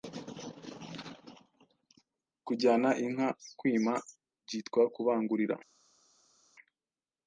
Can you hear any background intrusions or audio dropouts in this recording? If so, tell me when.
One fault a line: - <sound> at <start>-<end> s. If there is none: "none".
none